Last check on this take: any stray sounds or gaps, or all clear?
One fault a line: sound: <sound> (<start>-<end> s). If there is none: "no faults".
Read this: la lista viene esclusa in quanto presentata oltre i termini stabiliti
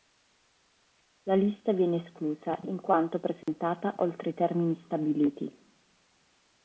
sound: dropout (3.4-3.5 s)